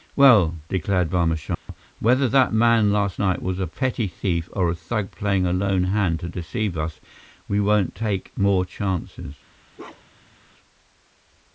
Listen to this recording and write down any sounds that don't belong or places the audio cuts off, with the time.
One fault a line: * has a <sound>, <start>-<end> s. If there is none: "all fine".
* has a dropout, 1.5-1.7 s
* has a bark, 9.8-10.4 s